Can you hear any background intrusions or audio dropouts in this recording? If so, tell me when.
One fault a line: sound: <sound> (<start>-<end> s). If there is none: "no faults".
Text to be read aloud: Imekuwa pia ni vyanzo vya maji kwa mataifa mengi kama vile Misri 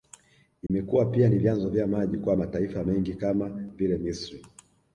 sound: dropout (0.7-0.7 s)